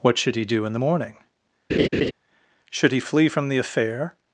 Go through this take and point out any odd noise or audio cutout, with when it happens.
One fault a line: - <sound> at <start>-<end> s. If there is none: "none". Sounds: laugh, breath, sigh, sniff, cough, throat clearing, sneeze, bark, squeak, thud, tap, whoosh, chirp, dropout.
- laugh at 1.7-2.1 s